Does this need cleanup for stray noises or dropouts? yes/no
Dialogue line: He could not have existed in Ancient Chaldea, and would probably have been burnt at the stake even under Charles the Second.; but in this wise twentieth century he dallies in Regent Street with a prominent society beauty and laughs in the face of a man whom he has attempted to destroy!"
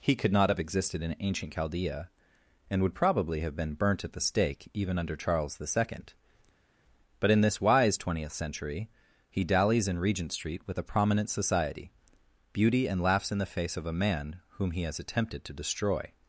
no